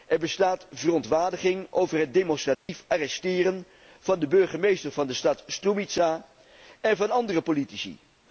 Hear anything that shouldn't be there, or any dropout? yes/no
yes